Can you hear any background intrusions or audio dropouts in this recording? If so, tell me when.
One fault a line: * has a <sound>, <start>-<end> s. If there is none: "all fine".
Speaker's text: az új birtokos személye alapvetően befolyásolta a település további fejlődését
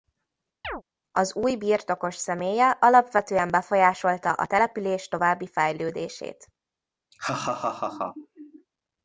* has a chirp, 0.6-0.8 s
* has a laugh, 7.1-8.7 s